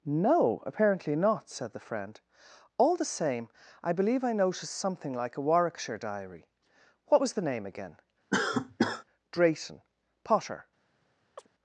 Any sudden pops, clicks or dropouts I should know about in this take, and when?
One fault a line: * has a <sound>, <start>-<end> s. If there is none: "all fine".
* has a cough, 8.3-9.0 s
* has a chirp, 11.4-11.5 s